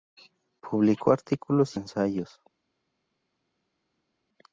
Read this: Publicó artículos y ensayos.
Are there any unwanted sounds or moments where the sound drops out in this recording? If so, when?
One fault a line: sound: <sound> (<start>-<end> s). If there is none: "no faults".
no faults